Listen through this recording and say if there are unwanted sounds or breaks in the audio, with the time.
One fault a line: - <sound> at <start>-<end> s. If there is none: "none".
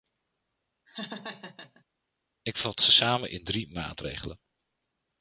- laugh at 0.9-1.8 s